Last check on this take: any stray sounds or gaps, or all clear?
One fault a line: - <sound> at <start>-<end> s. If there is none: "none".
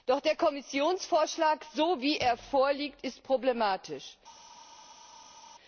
none